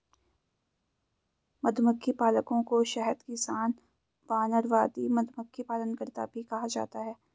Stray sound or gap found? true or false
false